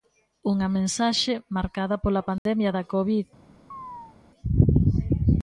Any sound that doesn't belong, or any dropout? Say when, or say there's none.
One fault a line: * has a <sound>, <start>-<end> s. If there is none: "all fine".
* has a dropout, 2.4-2.5 s
* has a chirp, 3.7-4.2 s